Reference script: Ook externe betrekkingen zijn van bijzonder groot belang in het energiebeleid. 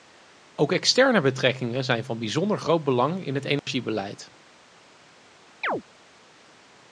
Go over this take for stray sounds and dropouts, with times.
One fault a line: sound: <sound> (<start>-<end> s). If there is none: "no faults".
sound: dropout (3.6-3.7 s)
sound: chirp (5.6-5.8 s)